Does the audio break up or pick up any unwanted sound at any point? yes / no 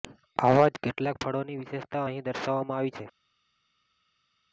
no